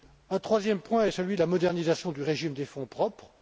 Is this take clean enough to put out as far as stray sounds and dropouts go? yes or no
yes